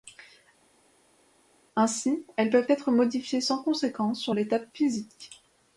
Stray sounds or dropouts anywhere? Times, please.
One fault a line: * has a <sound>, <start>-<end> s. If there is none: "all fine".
all fine